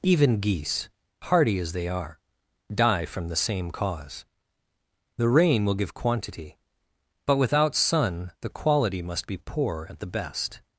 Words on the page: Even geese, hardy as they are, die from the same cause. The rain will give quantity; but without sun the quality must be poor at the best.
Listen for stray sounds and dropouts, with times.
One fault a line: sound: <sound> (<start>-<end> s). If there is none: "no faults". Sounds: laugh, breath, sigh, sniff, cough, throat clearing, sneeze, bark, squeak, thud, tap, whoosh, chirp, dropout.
no faults